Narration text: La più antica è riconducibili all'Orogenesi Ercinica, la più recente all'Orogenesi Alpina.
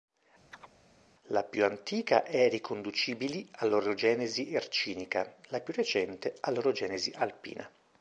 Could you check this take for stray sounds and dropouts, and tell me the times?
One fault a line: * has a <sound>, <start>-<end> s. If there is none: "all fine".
* has a chirp, 0.5-0.7 s